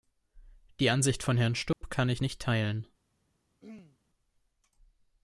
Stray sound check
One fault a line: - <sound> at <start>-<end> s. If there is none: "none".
- dropout at 1.7-1.8 s
- throat clearing at 3.6-4.0 s